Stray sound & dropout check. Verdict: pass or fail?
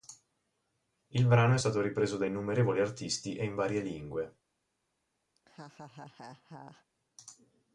fail